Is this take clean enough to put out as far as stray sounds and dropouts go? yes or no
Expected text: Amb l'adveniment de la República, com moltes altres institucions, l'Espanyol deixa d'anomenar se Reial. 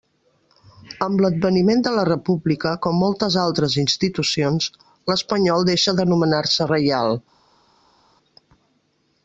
yes